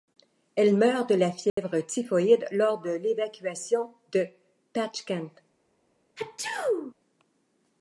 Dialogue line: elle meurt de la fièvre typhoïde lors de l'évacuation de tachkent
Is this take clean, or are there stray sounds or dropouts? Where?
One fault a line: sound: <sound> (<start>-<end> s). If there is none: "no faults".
sound: dropout (1.5-1.6 s)
sound: sneeze (6.2-6.9 s)